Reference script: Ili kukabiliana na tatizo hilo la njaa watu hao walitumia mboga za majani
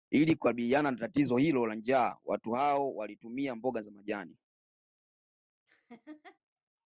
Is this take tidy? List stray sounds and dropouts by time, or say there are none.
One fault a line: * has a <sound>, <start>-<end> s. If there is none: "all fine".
* has a laugh, 5.7-6.4 s